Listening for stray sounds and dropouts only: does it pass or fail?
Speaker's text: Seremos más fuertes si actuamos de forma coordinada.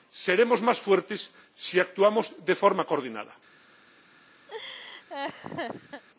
fail